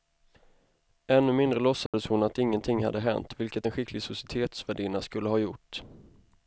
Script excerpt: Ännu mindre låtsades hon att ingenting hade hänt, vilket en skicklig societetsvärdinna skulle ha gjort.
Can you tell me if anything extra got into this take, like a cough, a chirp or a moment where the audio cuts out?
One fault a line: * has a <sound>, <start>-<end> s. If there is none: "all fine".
* has a dropout, 1.9-1.9 s